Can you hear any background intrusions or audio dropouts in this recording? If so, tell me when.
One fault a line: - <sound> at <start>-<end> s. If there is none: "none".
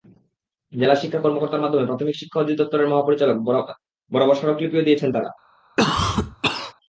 - cough at 5.8-6.7 s